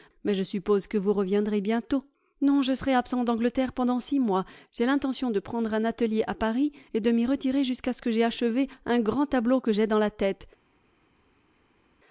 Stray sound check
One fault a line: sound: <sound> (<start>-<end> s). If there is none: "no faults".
no faults